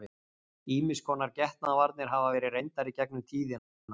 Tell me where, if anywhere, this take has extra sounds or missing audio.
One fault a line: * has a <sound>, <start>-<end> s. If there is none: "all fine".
all fine